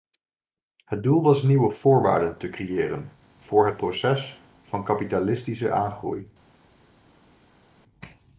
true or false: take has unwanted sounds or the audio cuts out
false